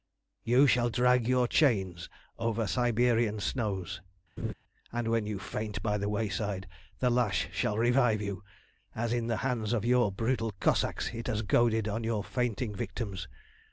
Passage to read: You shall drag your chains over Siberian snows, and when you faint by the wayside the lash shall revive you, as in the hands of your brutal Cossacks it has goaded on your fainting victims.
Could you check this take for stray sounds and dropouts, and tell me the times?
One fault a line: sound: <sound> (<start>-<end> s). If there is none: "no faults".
sound: laugh (4.4-4.5 s)